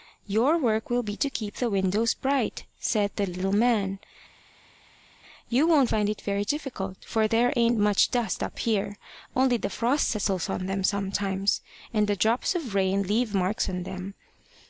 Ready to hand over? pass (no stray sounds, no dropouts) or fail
pass